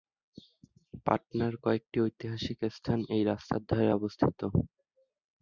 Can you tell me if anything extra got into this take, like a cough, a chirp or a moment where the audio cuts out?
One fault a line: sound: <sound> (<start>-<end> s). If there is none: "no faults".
no faults